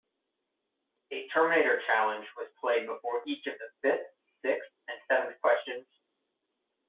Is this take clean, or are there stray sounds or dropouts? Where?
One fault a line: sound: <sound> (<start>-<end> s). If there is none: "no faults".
no faults